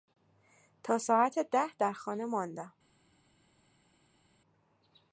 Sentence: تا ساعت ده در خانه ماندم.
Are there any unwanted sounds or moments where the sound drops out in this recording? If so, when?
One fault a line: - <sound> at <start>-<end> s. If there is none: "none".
none